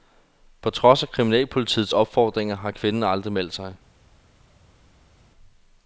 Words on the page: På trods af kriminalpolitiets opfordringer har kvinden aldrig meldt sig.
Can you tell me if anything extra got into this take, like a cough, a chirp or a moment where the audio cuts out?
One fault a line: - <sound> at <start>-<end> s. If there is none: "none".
none